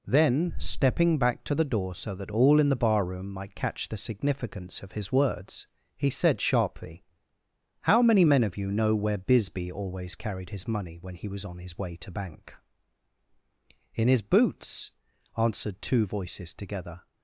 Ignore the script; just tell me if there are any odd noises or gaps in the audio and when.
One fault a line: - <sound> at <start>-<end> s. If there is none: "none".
none